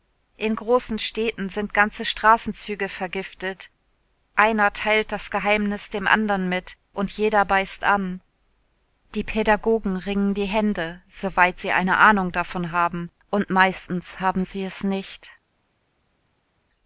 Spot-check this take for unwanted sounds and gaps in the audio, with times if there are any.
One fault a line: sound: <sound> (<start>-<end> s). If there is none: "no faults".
no faults